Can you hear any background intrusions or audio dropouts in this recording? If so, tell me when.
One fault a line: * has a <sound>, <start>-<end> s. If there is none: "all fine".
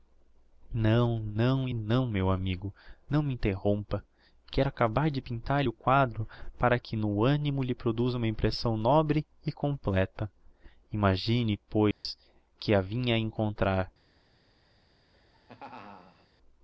* has a dropout, 11.9-12.0 s
* has a laugh, 15.1-16.3 s